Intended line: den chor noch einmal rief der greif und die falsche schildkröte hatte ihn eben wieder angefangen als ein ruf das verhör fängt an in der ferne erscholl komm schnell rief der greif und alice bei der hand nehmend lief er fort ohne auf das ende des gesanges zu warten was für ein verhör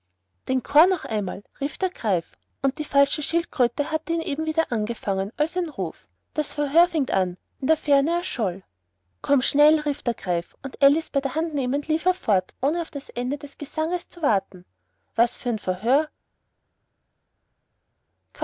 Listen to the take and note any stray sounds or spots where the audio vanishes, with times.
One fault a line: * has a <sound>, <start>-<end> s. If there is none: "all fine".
all fine